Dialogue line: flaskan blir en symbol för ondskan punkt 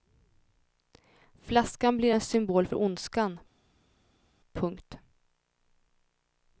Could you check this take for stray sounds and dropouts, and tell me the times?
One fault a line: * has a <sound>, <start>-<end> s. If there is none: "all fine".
all fine